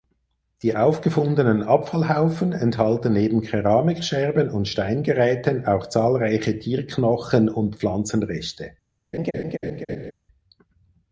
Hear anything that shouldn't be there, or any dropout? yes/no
yes